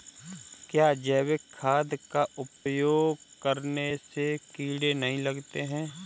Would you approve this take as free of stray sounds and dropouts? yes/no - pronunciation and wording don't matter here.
no